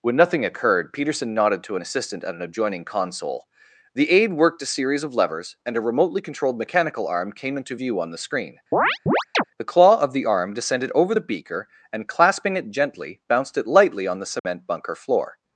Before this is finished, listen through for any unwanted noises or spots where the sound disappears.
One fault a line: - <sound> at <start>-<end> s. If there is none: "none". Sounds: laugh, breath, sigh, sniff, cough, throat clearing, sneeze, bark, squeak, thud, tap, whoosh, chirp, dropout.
- chirp at 8.7-9.4 s
- dropout at 14.4-14.4 s